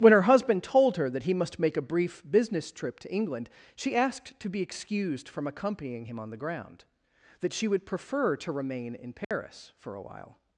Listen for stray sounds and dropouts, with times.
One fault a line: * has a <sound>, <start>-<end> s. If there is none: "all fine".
* has a dropout, 9.2-9.3 s